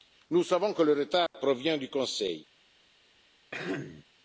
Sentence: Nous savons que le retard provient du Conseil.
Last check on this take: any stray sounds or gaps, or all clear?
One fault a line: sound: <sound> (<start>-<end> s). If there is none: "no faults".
sound: dropout (1.3-1.3 s)
sound: throat clearing (3.5-4.0 s)